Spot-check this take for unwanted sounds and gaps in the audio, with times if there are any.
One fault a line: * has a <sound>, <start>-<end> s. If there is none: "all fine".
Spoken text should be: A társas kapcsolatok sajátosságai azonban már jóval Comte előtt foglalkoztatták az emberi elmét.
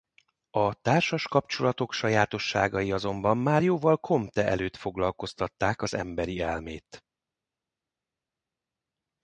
all fine